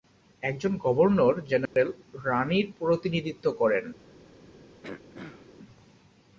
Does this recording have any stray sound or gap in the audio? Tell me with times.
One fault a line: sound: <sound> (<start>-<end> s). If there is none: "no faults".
sound: dropout (1.7-1.8 s)
sound: throat clearing (4.8-5.5 s)